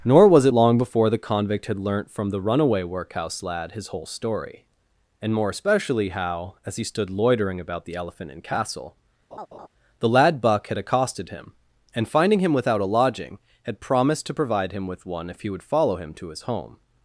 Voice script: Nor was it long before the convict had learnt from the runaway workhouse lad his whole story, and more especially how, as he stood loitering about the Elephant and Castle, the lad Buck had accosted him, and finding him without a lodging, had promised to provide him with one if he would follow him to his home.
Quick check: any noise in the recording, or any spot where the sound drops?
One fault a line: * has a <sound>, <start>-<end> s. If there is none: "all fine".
* has a laugh, 9.3-9.7 s